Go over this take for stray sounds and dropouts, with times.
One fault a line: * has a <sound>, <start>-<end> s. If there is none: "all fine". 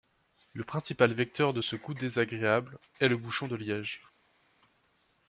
all fine